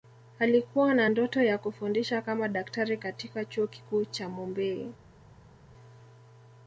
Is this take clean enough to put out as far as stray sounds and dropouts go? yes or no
yes